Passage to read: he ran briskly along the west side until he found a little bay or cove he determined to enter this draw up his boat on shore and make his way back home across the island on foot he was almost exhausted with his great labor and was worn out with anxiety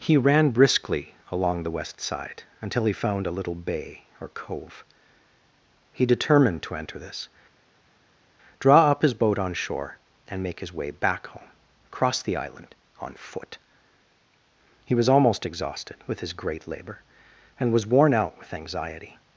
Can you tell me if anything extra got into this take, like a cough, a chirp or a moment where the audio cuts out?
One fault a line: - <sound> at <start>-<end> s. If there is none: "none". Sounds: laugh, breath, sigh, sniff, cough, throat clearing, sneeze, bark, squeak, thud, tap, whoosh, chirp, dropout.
none